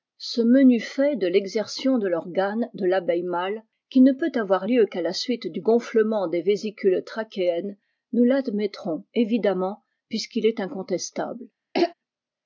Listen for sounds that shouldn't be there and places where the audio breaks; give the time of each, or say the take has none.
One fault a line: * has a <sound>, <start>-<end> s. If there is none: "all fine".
* has a throat clearing, 11.7-11.9 s